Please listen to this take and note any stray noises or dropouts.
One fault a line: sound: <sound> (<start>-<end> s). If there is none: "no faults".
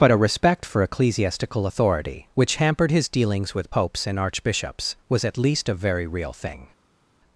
no faults